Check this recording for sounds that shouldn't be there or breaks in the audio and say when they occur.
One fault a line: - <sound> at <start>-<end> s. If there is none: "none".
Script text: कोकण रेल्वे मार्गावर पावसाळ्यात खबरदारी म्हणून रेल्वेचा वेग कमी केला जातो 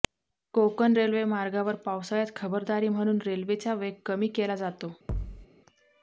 - thud at 5.1-5.5 s